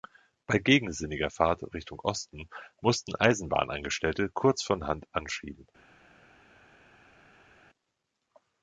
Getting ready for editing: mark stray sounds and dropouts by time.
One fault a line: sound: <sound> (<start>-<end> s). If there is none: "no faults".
no faults